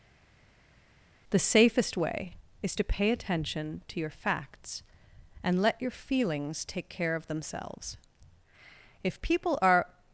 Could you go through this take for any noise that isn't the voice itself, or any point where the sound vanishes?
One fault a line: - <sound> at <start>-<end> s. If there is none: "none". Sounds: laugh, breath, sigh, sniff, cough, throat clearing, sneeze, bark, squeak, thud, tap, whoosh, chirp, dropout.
none